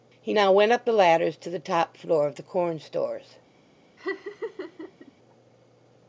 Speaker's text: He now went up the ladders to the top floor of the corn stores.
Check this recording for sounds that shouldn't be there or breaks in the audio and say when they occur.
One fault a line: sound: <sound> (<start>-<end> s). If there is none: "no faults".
sound: laugh (4.0-5.1 s)